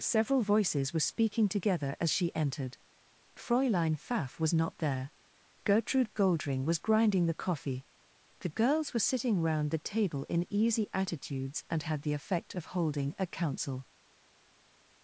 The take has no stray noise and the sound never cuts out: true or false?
true